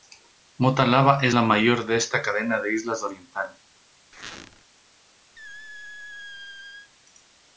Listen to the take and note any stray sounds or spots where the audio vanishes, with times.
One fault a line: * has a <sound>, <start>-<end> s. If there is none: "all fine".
* has a squeak, 4.1-4.6 s
* has a squeak, 5.4-6.9 s